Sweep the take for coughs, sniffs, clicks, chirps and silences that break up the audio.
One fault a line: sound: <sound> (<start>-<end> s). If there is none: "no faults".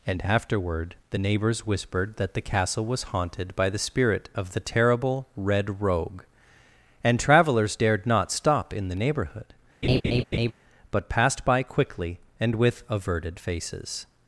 sound: laugh (9.8-10.5 s)